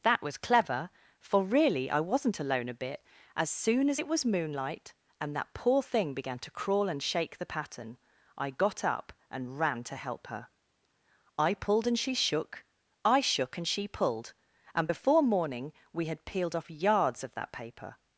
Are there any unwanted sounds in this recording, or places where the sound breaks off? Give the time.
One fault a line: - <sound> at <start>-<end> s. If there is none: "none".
none